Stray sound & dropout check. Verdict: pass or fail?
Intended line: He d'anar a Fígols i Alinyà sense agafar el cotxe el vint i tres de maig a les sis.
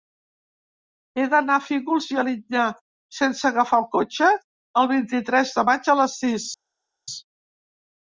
pass